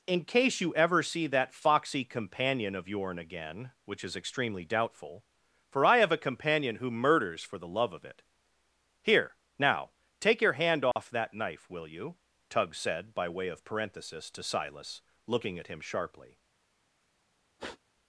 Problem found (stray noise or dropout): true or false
true